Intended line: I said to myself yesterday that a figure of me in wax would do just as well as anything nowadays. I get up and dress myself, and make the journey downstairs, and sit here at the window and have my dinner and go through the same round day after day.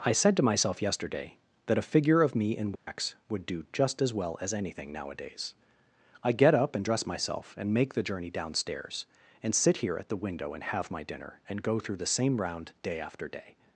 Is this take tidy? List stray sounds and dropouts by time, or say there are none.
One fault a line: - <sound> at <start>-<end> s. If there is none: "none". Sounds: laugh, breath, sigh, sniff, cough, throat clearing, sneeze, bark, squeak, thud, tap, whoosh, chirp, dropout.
- dropout at 2.8-2.9 s